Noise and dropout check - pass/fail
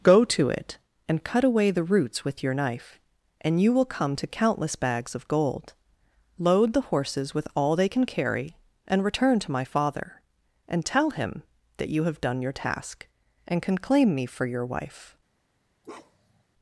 fail